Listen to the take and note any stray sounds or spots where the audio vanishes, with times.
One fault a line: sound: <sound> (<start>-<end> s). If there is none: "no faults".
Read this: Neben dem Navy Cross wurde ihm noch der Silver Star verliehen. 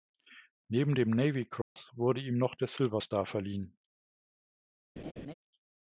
sound: dropout (1.6-1.8 s)
sound: laugh (5.0-5.3 s)